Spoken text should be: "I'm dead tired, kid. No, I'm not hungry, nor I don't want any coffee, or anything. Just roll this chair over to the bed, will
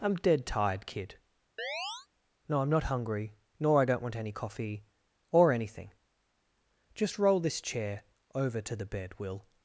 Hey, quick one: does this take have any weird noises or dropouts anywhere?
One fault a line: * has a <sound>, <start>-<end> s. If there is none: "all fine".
* has a chirp, 1.6-2.1 s